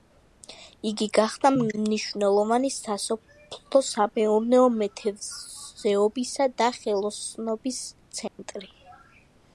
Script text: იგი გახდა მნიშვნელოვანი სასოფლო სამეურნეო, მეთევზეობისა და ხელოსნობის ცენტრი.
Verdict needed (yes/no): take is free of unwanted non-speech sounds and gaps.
no